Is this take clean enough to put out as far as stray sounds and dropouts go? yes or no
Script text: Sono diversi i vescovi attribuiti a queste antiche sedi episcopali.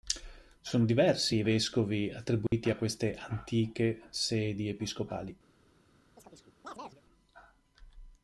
no